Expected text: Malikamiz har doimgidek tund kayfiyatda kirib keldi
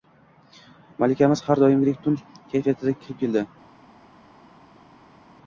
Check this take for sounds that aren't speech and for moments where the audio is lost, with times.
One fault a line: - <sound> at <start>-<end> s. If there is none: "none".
none